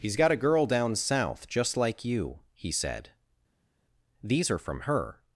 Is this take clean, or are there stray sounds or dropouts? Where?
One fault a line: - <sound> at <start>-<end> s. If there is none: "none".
none